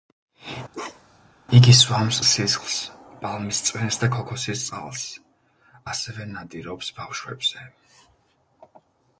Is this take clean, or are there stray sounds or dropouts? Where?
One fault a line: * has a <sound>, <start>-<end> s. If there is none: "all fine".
* has a bark, 0.7-1.3 s